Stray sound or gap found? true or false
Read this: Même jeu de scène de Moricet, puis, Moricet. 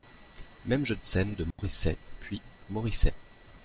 true